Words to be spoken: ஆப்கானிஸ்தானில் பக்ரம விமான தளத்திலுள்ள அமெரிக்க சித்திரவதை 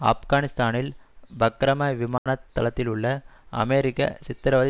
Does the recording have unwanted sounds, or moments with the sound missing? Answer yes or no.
yes